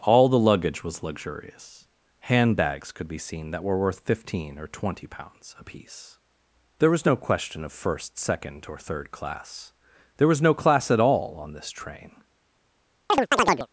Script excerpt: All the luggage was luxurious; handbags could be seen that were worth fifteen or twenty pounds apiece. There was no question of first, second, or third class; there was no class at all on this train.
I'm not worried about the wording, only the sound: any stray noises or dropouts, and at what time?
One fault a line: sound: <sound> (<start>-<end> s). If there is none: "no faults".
sound: chirp (13.1-13.7 s)